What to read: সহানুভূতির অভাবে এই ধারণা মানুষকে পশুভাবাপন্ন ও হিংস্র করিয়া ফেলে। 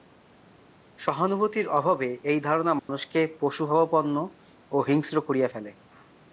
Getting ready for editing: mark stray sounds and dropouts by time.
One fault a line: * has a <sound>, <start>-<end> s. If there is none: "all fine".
* has a dropout, 2.8-2.9 s